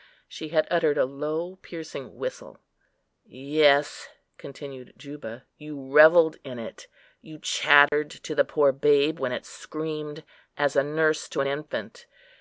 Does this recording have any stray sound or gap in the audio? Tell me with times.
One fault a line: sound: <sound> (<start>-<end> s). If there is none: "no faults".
sound: dropout (7.9-7.9 s)